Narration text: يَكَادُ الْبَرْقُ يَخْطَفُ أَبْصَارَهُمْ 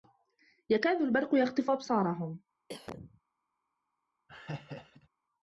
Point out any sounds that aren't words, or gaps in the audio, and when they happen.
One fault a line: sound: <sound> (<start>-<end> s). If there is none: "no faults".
sound: cough (2.7-3.2 s)
sound: laugh (4.3-5.1 s)